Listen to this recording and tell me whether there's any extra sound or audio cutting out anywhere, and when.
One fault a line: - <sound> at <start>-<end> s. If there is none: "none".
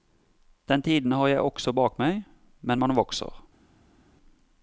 none